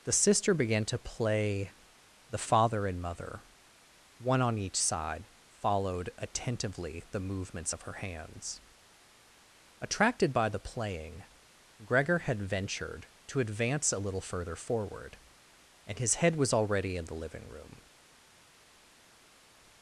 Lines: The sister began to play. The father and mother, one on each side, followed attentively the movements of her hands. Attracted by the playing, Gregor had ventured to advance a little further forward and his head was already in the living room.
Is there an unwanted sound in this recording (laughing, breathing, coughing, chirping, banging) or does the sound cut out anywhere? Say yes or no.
no